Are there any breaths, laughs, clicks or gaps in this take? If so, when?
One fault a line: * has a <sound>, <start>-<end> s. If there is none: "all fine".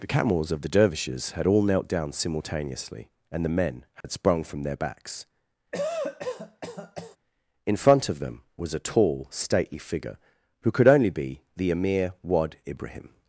* has a dropout, 4.0-4.0 s
* has a cough, 5.7-7.2 s